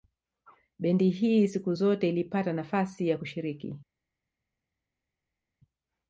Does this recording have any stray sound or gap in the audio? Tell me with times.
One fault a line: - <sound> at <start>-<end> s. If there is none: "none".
none